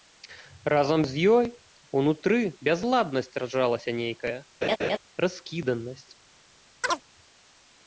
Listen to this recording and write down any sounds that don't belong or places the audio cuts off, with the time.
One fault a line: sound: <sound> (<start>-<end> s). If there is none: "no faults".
sound: laugh (4.6-5.0 s)
sound: chirp (6.8-7.0 s)